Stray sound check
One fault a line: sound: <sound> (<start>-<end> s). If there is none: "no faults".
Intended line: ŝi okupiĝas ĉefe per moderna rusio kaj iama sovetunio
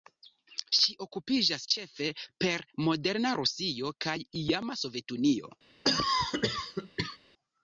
sound: cough (5.8-7.2 s)